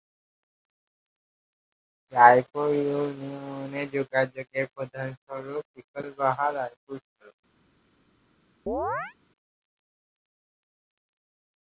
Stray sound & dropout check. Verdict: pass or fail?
fail